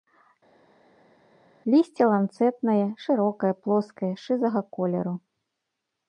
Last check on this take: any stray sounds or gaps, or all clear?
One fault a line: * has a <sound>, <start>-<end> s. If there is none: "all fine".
all fine